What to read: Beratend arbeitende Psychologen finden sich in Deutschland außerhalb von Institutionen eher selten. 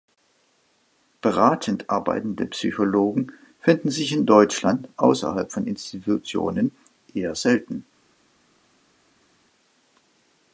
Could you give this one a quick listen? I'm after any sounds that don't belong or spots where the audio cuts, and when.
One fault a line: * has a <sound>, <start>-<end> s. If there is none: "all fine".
all fine